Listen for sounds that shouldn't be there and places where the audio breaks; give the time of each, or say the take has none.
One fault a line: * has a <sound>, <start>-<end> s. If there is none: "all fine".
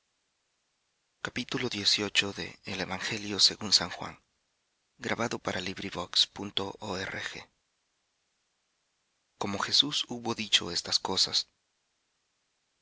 all fine